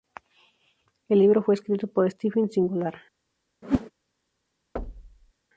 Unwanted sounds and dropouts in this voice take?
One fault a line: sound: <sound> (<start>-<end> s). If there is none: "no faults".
sound: whoosh (3.6-3.9 s)
sound: thud (4.8-5.3 s)